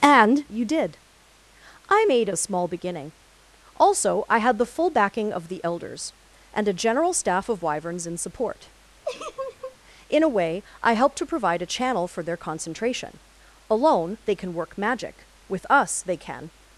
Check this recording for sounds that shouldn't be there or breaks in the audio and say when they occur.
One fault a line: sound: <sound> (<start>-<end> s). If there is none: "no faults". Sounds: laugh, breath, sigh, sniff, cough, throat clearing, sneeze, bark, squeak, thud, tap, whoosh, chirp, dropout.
sound: laugh (9.0-9.8 s)